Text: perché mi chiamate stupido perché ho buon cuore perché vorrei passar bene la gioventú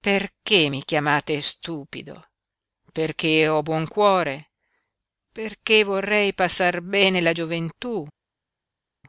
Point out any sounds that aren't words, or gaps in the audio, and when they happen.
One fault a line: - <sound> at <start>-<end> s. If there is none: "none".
none